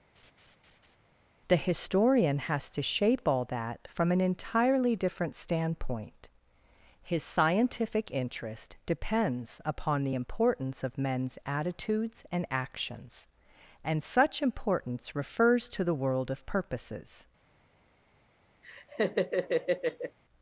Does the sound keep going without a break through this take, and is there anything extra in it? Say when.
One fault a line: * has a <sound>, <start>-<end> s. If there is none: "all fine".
* has a laugh, 0.2-1.0 s
* has a laugh, 18.6-20.2 s